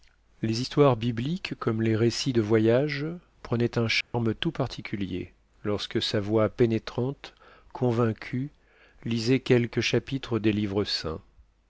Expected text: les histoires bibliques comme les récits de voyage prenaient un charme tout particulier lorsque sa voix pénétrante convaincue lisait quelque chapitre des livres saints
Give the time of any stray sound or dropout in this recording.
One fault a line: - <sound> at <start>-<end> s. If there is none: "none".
- dropout at 4.0-4.1 s